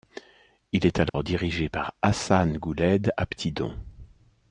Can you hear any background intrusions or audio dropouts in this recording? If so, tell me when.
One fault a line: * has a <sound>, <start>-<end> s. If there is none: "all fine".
* has a dropout, 1.1-1.1 s